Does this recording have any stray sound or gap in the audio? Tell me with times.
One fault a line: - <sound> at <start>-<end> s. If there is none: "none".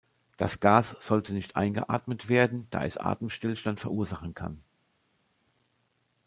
none